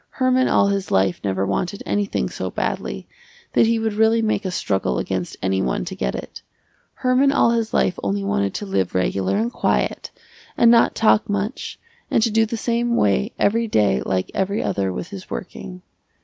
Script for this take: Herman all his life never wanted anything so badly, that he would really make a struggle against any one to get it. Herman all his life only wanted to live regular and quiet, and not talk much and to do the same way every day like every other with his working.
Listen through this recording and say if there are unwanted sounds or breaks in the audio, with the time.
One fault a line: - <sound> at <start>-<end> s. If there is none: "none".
none